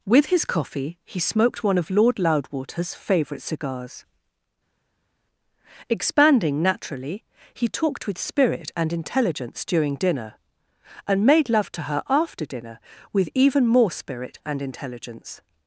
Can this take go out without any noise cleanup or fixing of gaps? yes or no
yes